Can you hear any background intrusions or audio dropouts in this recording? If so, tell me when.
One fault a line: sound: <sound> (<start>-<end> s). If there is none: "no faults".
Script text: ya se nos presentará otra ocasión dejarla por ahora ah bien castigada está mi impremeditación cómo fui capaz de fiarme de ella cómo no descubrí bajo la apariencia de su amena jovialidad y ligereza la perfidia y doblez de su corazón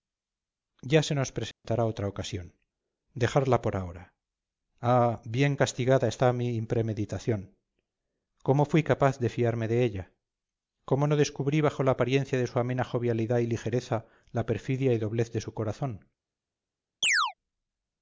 sound: dropout (1.5-1.6 s)
sound: chirp (17.0-17.3 s)